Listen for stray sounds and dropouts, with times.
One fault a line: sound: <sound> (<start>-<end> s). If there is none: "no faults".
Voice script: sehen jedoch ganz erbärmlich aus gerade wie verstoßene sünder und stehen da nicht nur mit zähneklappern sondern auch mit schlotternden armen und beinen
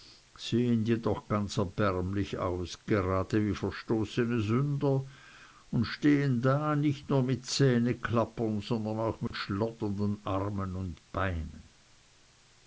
sound: dropout (9.3-9.3 s)